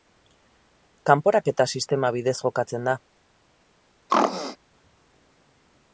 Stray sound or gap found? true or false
true